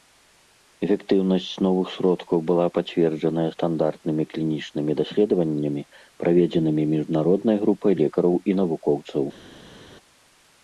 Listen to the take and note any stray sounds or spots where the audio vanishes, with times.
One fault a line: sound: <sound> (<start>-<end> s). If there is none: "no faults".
no faults